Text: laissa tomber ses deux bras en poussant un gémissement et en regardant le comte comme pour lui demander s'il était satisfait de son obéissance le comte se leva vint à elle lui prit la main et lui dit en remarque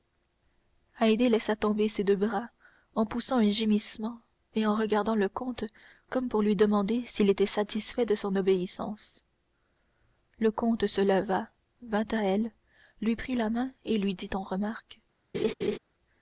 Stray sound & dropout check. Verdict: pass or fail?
fail